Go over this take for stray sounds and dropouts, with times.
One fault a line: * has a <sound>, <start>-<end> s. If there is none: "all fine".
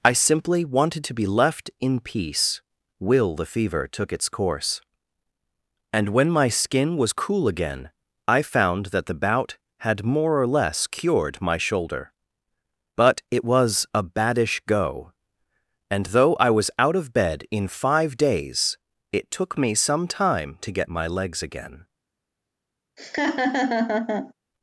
* has a laugh, 23.0-24.3 s